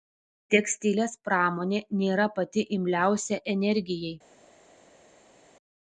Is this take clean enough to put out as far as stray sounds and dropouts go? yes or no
yes